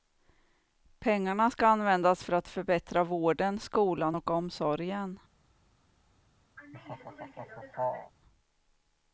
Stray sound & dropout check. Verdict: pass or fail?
fail